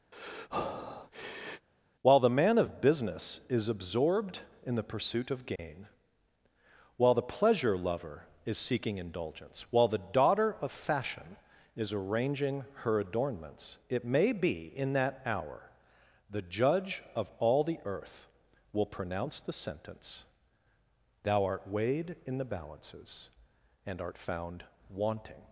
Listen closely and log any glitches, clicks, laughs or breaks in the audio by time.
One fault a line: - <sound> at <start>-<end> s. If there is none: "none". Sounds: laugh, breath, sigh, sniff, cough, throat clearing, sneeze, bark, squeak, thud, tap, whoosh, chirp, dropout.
- breath at 0.1-1.7 s
- dropout at 5.6-5.6 s